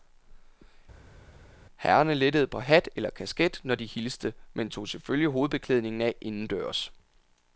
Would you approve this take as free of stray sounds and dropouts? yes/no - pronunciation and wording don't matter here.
yes